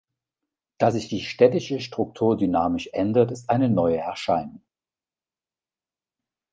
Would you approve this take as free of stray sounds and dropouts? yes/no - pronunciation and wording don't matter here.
yes